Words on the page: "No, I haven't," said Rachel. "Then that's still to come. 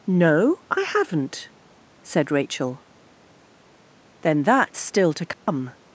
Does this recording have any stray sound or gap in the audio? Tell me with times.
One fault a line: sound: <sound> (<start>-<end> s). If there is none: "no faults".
sound: dropout (5.3-5.5 s)